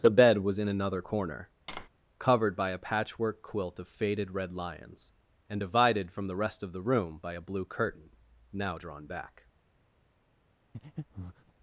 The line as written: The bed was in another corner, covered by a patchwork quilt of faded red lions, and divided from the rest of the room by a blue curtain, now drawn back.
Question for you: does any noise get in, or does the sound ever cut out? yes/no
yes